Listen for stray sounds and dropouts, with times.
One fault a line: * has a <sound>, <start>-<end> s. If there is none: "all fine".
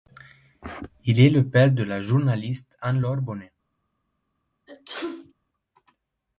* has a sneeze, 4.7-5.3 s